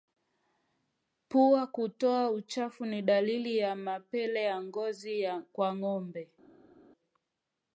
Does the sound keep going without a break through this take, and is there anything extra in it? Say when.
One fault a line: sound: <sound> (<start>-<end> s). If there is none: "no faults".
no faults